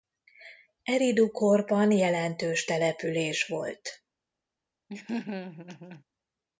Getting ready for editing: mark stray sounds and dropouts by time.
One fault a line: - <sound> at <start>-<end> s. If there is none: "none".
- laugh at 4.9-6.0 s